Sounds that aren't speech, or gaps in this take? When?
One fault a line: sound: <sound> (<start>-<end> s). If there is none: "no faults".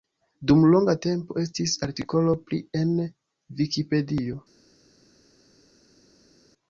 no faults